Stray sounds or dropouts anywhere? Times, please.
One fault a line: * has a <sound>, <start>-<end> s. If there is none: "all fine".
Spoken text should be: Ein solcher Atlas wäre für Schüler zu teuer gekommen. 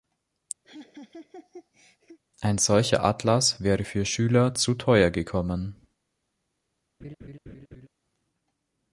* has a laugh, 0.6-2.2 s
* has a laugh, 7.0-7.9 s